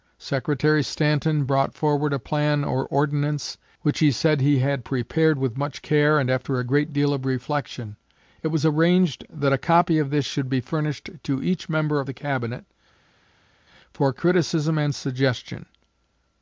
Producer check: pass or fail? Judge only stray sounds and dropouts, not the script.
pass